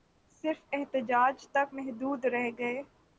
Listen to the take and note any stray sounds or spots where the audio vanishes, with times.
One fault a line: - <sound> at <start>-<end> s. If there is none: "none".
none